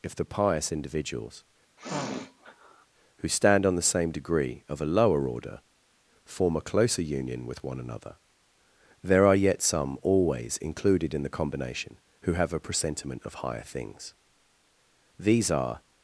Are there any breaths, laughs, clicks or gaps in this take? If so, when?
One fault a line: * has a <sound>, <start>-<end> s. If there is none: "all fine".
* has a sniff, 1.8-2.9 s